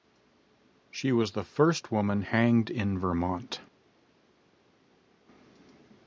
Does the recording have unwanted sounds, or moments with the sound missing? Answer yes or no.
no